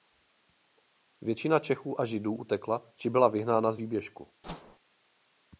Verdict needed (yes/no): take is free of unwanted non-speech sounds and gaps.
no